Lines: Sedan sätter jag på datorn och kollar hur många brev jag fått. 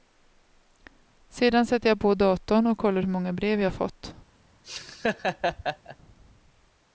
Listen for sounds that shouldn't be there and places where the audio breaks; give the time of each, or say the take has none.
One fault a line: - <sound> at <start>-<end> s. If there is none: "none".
- laugh at 4.6-6.0 s